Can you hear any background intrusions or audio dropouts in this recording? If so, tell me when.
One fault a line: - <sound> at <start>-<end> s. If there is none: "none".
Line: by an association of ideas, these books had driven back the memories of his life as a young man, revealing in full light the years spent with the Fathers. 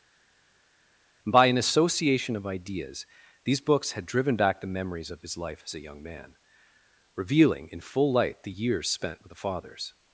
none